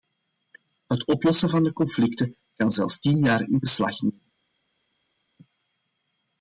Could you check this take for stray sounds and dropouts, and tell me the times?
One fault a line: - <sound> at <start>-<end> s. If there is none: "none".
none